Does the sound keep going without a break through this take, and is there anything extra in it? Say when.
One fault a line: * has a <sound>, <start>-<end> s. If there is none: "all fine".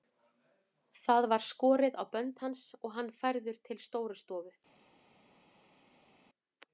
all fine